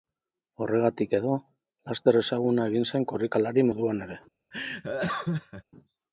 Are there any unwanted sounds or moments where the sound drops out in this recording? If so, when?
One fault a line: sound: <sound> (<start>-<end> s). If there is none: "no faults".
sound: laugh (4.5-5.6 s)